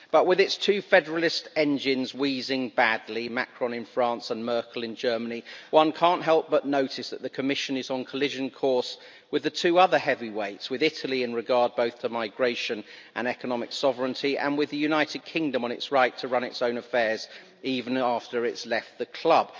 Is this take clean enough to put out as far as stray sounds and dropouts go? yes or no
yes